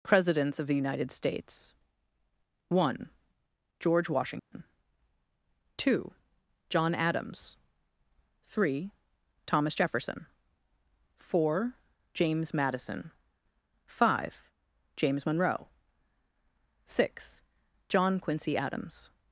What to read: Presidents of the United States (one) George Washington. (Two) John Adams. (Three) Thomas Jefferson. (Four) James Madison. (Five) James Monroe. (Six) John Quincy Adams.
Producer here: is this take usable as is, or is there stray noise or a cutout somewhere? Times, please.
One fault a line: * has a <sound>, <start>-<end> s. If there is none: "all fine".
* has a dropout, 4.4-4.5 s